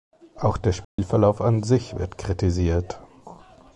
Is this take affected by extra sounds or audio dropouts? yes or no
yes